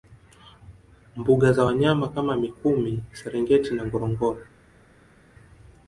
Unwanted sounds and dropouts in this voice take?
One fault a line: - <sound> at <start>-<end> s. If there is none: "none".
none